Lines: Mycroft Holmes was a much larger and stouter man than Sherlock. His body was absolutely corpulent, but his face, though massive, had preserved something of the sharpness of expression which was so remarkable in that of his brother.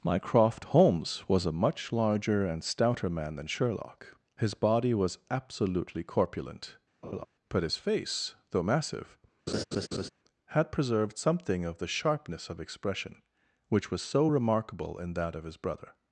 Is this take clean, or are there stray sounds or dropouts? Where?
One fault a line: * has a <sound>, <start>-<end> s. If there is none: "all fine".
* has a laugh, 7.0-7.3 s
* has a laugh, 9.5-10.1 s